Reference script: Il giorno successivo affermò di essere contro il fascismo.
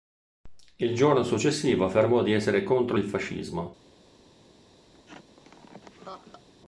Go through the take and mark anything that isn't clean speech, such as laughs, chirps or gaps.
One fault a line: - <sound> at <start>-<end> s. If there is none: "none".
- laugh at 4.9-6.5 s